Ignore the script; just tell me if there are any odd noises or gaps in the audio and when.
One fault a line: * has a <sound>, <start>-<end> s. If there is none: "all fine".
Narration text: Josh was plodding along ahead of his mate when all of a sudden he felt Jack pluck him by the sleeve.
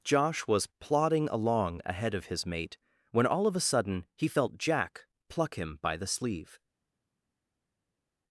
all fine